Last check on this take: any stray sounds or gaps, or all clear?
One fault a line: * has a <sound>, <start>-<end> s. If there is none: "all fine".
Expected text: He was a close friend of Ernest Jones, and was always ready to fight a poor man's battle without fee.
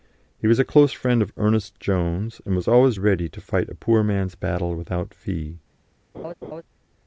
* has a laugh, 6.1-6.6 s